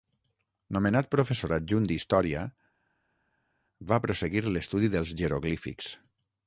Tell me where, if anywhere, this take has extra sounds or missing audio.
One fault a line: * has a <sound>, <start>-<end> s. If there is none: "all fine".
all fine